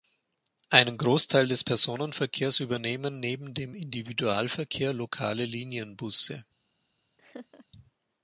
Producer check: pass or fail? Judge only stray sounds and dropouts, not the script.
fail